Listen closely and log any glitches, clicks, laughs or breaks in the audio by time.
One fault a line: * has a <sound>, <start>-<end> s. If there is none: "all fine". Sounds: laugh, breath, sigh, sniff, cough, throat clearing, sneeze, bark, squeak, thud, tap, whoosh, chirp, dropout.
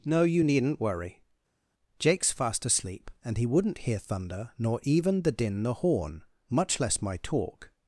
all fine